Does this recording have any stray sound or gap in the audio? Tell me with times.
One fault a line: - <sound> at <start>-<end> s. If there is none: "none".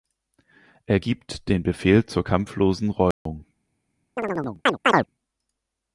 - dropout at 3.1-3.3 s
- chirp at 4.2-5.1 s